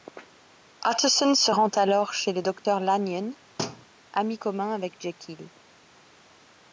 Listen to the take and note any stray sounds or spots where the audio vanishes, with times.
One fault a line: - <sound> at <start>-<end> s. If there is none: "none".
- dropout at 2.6-2.7 s
- thud at 3.6-3.9 s